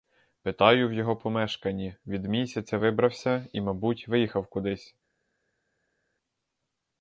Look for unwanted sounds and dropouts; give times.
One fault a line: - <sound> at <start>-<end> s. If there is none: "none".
none